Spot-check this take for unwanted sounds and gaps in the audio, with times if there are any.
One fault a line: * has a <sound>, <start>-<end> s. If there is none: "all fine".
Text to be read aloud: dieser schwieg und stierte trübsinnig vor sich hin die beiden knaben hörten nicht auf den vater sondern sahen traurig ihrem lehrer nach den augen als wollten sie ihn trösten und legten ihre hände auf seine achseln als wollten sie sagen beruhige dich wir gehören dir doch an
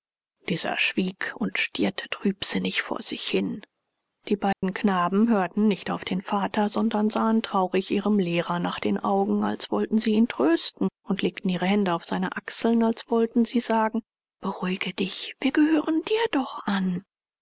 * has a dropout, 4.5-4.6 s